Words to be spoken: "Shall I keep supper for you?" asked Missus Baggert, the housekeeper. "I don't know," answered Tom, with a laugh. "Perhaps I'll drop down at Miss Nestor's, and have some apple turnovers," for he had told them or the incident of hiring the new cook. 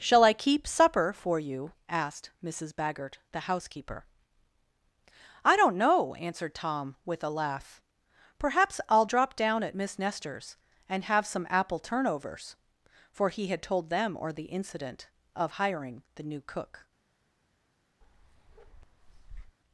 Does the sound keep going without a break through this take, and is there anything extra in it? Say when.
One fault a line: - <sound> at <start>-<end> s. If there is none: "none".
- bark at 18.0-19.6 s